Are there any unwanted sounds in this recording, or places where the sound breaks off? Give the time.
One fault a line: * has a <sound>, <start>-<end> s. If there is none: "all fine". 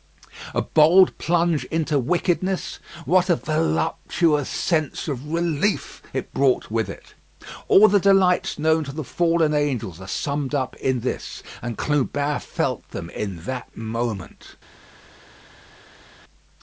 all fine